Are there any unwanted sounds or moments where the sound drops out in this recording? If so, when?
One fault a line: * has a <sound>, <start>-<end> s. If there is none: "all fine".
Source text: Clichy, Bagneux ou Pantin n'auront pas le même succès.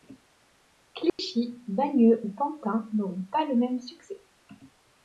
* has a dropout, 1.1-1.2 s